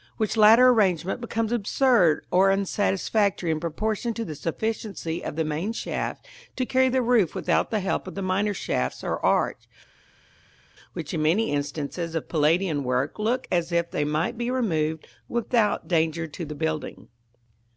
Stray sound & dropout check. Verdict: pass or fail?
pass